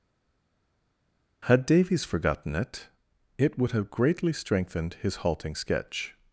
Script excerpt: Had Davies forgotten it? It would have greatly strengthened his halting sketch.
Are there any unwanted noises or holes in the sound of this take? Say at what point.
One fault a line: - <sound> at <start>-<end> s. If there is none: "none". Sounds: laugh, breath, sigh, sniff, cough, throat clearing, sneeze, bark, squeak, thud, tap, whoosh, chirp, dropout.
none